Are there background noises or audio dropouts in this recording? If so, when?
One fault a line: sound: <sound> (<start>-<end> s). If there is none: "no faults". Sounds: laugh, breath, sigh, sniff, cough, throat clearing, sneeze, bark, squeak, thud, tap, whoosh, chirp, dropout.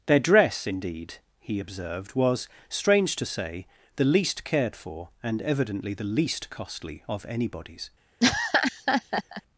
sound: laugh (8.2-9.4 s)